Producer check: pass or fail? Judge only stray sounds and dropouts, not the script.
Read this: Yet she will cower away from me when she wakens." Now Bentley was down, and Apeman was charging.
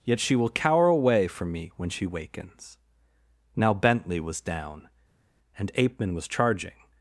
pass